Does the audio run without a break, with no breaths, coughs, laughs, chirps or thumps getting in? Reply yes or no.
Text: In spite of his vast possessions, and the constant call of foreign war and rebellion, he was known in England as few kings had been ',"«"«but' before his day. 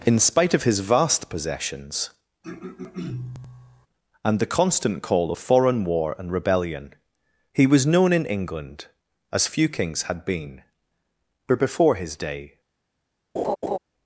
no